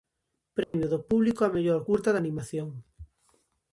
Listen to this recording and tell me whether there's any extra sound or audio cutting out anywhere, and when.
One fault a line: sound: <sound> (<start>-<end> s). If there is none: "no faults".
sound: dropout (0.6-0.7 s)